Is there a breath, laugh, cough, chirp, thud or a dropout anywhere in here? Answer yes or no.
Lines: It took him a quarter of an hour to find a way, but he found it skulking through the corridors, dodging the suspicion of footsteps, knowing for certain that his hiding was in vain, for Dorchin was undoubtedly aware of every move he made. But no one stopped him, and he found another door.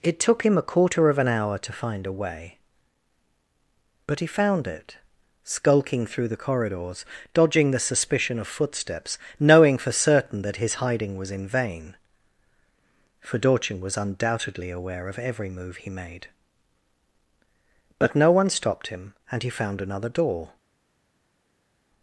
no